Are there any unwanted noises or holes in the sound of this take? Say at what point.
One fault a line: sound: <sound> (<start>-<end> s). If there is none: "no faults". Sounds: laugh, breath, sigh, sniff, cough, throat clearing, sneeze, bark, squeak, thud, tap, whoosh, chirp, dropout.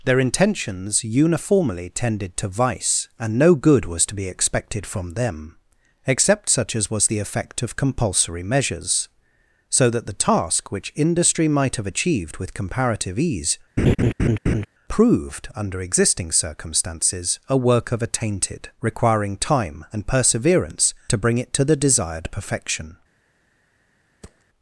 sound: laugh (13.8-14.7 s)
sound: thud (24.2-24.4 s)